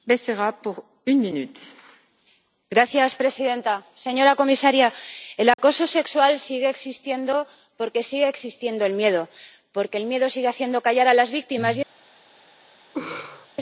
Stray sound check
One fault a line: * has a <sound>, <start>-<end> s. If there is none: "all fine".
* has a dropout, 5.5-5.6 s
* has a laugh, 12.9-13.5 s